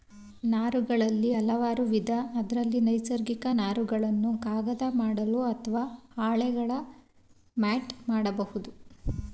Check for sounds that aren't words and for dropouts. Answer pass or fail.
pass